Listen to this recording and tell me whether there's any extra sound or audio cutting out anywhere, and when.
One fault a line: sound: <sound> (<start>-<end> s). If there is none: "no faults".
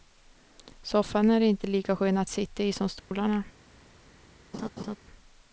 sound: dropout (3.0-3.1 s)
sound: laugh (4.5-5.0 s)